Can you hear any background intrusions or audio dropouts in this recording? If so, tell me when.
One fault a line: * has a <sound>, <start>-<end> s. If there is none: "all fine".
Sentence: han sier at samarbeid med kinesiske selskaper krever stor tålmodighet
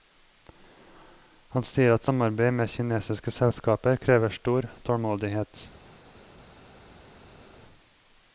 all fine